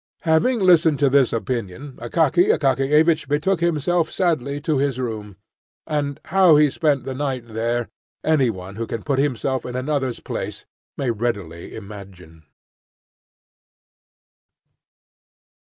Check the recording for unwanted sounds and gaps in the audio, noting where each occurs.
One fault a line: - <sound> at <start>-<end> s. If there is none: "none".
none